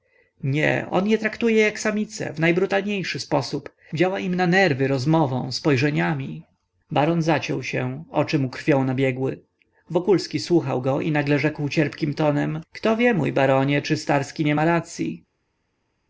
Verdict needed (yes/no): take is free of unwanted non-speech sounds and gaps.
yes